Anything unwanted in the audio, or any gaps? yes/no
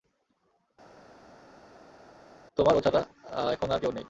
no